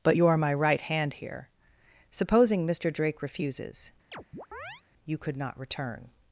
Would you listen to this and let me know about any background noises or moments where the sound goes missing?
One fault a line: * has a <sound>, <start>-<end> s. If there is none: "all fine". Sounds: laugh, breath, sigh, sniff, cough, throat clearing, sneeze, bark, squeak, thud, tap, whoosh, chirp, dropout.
* has a chirp, 4.1-4.8 s